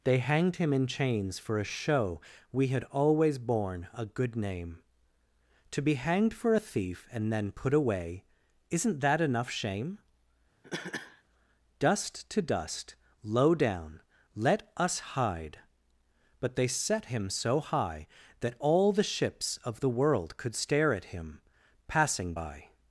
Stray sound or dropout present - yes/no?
yes